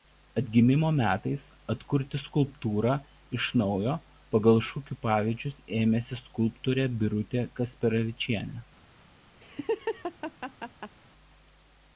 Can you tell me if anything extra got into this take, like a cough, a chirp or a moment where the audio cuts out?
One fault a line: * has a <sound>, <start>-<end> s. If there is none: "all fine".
* has a laugh, 9.4-10.9 s